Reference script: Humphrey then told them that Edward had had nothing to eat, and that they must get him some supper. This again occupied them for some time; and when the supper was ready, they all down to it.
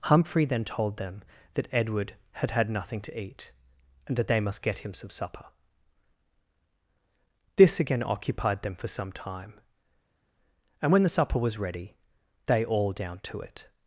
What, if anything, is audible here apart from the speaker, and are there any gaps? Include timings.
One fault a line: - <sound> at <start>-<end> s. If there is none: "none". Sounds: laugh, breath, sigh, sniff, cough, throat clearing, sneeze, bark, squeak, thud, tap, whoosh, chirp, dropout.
none